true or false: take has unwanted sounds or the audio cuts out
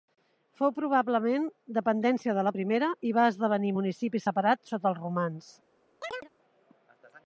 true